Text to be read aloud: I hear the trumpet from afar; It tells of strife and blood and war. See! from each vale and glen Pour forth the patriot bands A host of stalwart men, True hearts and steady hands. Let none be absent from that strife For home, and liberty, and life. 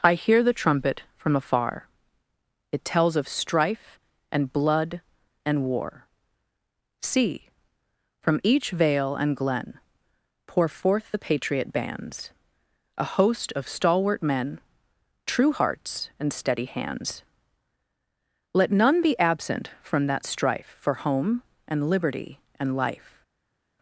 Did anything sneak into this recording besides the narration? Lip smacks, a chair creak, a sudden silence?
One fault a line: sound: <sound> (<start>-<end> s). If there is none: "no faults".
no faults